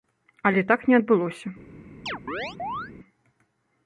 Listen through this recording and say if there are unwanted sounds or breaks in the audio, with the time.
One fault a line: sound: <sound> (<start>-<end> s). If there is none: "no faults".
sound: chirp (2.1-2.9 s)